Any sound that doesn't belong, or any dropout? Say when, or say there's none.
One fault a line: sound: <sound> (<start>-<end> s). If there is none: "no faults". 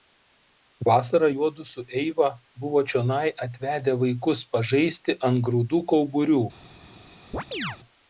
sound: chirp (7.3-7.8 s)